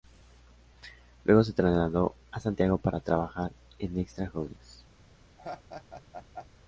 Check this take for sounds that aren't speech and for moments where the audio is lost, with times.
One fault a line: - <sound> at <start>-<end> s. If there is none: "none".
- laugh at 5.4-6.5 s